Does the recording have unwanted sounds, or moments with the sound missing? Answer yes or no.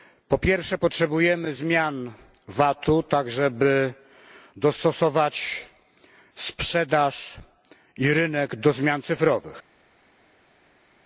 no